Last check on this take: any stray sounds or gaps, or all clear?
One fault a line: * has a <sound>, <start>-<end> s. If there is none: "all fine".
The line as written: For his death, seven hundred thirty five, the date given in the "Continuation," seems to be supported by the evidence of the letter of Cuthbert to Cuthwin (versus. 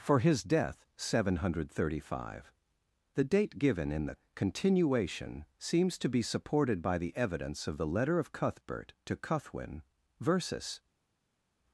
all fine